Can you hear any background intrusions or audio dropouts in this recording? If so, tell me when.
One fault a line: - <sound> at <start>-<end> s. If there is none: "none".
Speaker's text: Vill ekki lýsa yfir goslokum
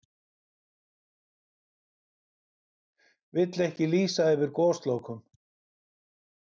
none